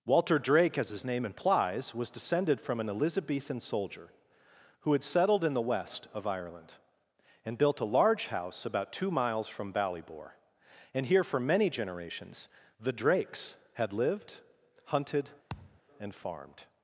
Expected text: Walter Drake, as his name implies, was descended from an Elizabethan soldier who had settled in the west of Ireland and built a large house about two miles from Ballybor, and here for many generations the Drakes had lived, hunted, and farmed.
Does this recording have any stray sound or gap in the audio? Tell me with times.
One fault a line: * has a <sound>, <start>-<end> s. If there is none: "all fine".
* has a thud, 15.5-15.8 s